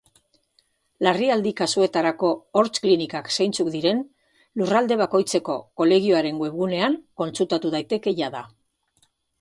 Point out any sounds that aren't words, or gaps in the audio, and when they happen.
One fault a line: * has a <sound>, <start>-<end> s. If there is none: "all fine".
all fine